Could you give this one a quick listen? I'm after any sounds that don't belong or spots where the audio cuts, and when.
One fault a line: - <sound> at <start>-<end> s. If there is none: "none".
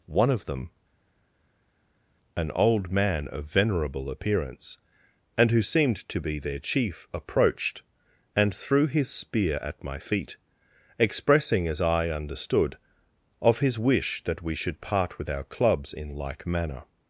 none